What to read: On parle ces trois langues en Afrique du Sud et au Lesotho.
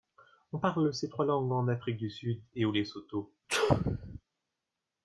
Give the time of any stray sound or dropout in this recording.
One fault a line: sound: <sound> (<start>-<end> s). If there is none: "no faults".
sound: sneeze (3.5-4.2 s)